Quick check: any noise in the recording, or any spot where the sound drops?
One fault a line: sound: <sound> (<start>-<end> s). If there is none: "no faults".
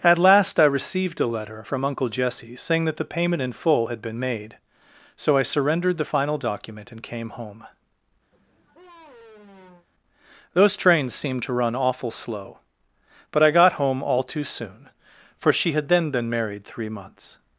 sound: sigh (8.3-9.9 s)